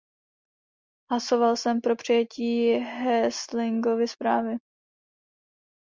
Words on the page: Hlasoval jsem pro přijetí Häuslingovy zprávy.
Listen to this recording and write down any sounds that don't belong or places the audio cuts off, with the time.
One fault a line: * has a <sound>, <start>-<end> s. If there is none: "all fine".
all fine